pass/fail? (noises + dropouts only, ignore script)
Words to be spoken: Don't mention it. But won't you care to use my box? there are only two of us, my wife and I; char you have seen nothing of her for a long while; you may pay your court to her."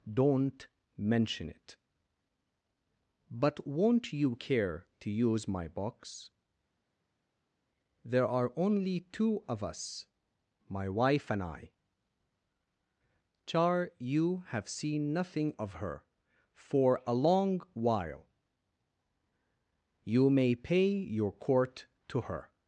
pass